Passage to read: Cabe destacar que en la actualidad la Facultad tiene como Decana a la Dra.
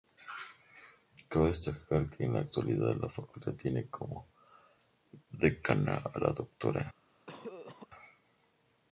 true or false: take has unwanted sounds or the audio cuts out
true